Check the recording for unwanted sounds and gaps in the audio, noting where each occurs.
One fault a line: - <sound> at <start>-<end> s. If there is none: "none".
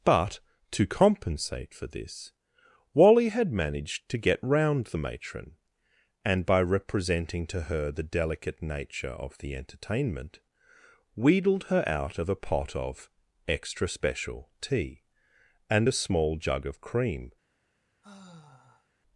- sigh at 18.0-18.9 s